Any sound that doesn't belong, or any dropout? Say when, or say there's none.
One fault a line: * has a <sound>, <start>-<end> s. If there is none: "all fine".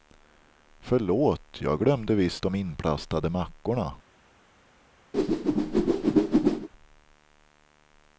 * has a whoosh, 5.1-6.7 s